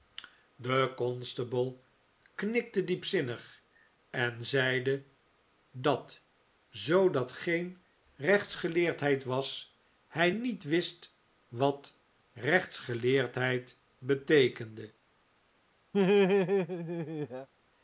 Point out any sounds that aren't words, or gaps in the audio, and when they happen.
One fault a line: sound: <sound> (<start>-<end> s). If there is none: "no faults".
sound: laugh (15.9-17.5 s)